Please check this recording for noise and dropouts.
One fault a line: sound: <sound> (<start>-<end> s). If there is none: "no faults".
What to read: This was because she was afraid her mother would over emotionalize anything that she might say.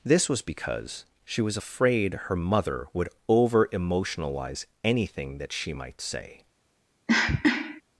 sound: cough (7.1-7.8 s)